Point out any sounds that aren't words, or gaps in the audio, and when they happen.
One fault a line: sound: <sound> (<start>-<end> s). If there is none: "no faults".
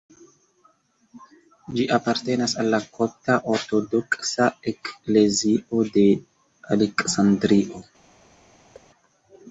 sound: thud (8.7-8.9 s)